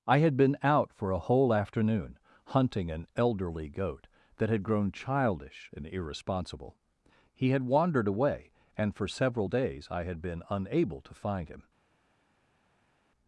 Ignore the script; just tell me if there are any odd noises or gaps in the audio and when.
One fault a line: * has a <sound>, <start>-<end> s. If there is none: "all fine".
all fine